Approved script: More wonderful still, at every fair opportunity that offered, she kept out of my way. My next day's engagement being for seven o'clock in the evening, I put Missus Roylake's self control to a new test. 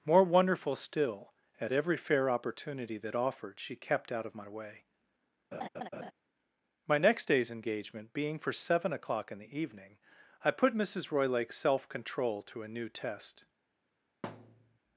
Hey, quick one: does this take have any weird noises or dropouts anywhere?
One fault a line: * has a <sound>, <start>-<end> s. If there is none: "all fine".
* has a laugh, 5.5-6.1 s
* has a thud, 14.2-14.8 s